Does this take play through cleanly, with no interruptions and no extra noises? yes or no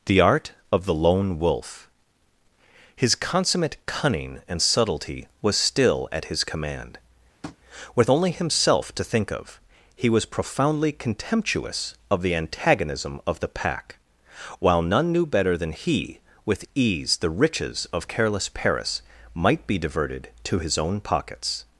no